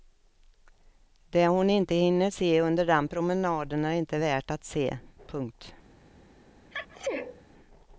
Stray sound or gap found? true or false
true